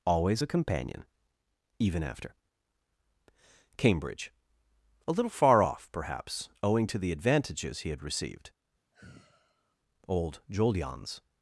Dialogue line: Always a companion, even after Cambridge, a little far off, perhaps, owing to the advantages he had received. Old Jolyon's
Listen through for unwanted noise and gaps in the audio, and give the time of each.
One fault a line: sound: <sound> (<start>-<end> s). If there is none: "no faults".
sound: sigh (8.9-9.8 s)